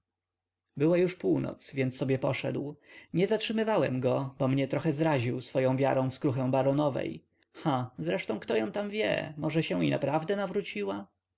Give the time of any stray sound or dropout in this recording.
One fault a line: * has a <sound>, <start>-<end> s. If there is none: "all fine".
all fine